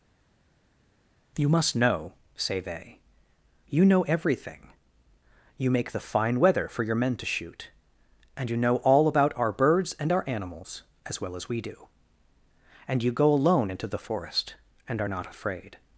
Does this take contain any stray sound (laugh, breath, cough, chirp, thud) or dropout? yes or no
no